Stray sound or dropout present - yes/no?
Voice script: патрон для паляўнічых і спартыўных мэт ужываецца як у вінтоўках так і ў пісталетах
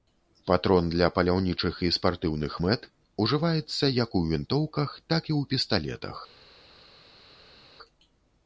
no